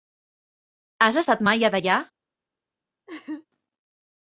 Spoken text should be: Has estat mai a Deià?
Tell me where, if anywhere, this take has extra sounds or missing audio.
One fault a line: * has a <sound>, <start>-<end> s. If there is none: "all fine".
* has a laugh, 3.1-3.5 s